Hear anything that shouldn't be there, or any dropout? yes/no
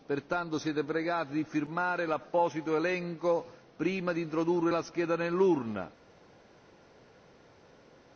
no